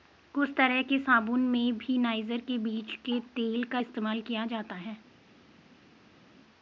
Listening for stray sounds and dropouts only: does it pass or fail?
pass